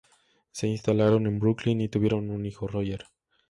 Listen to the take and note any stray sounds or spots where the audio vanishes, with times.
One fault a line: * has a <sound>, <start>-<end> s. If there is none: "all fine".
all fine